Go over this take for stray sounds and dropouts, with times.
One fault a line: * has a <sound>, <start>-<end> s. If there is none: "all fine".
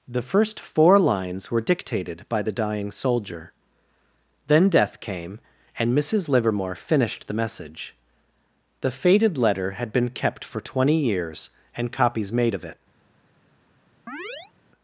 * has a chirp, 14.1-14.5 s